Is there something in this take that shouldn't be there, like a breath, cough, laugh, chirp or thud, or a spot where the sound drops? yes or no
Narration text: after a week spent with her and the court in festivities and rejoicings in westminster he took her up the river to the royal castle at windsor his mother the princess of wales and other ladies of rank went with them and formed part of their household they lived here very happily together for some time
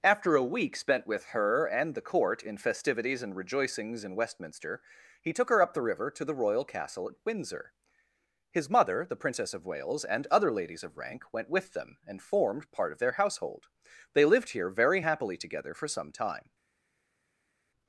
no